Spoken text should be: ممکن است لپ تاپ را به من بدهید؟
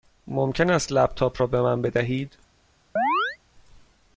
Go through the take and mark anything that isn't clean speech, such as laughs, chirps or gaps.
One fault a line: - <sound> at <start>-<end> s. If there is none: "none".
- chirp at 3.0-3.4 s